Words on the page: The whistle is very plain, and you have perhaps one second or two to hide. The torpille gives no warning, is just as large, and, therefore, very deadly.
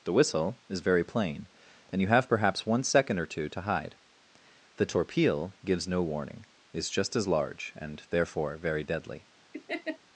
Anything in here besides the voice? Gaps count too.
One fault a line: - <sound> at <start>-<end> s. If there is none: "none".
- laugh at 9.5-10.0 s